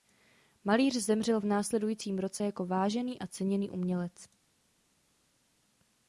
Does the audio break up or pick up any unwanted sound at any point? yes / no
no